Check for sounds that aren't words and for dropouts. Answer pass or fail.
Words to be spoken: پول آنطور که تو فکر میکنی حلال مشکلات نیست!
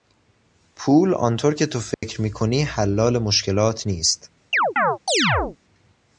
fail